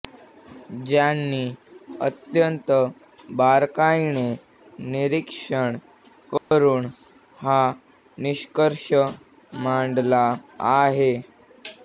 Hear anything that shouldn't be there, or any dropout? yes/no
yes